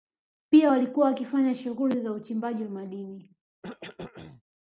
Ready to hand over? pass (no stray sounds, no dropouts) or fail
fail